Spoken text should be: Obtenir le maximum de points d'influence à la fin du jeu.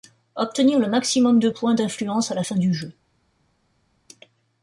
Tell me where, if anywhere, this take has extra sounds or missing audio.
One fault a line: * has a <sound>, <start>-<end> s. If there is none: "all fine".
all fine